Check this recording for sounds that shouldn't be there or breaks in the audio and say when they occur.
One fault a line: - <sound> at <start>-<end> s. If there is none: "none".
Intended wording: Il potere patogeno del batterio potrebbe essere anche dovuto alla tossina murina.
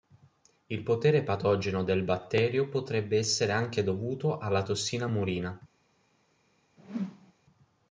- whoosh at 6.8-7.3 s